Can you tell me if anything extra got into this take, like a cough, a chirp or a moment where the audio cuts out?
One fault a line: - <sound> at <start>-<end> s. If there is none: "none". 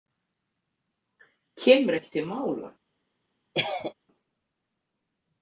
- cough at 3.5-3.9 s